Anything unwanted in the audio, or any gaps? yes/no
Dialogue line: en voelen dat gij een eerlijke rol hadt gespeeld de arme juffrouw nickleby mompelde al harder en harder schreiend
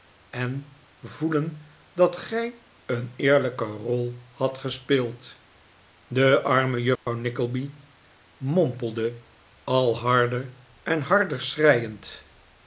yes